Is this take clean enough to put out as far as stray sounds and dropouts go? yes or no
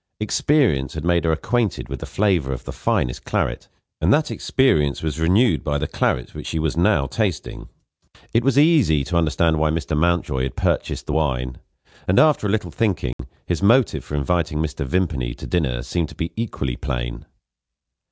no